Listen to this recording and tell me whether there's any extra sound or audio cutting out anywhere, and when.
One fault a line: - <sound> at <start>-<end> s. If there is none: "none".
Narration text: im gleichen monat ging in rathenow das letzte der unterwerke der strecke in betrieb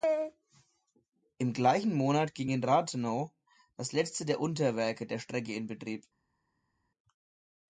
none